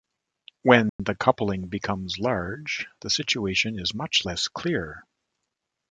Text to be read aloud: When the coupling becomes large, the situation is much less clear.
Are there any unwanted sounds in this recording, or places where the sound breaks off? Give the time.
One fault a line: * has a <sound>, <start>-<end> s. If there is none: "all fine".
* has a dropout, 0.9-1.0 s